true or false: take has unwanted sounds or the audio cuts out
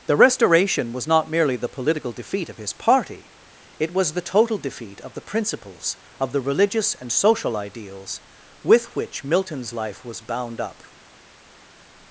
false